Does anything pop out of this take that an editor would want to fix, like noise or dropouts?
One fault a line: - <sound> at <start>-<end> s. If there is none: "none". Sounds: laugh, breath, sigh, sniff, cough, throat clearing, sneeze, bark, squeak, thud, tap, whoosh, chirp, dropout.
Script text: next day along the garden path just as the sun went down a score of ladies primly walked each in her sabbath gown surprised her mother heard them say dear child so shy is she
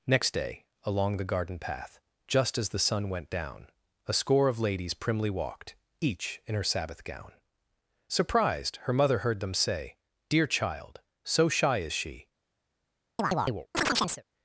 - chirp at 13.2-14.2 s